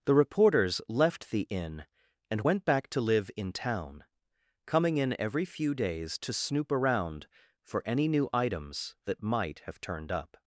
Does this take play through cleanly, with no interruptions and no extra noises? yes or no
yes